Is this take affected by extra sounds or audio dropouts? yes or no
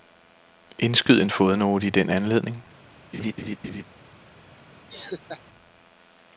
yes